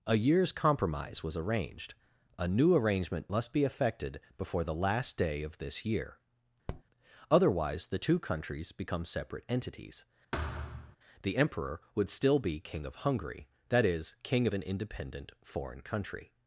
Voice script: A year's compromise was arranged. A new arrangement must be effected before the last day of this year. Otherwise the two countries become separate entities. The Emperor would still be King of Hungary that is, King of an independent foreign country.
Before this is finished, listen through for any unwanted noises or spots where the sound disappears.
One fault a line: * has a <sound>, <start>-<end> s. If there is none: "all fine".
* has a tap, 6.7-6.8 s
* has a thud, 10.3-11.0 s